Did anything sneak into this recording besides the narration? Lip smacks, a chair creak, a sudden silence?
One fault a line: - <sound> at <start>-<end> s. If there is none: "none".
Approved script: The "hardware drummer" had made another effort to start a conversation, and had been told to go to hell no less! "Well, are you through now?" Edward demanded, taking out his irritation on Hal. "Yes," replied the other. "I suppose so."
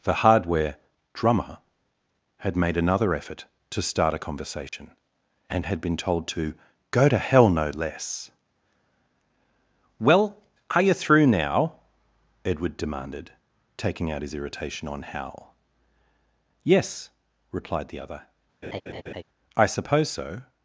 - dropout at 4.7-4.7 s
- laugh at 18.6-19.2 s